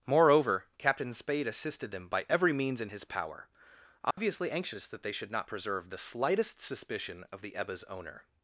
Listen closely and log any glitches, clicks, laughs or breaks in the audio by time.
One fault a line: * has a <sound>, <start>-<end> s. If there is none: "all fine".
* has a dropout, 4.1-4.2 s